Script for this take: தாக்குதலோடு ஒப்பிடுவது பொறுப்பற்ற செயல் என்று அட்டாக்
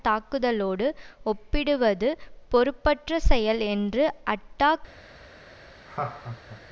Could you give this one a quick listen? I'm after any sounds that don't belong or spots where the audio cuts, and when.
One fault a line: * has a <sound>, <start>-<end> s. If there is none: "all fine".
* has a laugh, 5.9-6.6 s